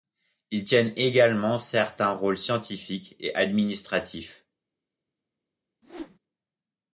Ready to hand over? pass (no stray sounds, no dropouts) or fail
fail